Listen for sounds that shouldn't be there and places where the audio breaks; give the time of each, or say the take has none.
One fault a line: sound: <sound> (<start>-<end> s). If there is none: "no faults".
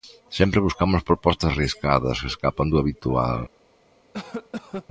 sound: cough (4.1-4.9 s)